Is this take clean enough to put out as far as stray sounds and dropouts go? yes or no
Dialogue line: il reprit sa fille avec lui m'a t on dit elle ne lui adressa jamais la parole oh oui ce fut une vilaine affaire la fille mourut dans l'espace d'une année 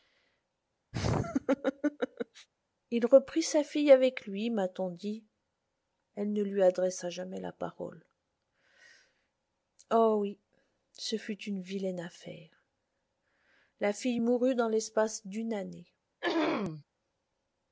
no